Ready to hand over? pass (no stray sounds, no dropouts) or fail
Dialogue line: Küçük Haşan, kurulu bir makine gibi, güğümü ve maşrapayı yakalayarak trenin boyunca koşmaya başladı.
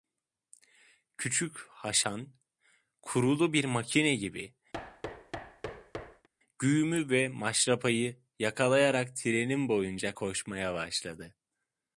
fail